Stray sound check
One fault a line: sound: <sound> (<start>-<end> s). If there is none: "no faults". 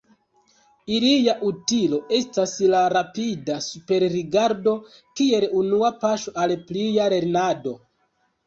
no faults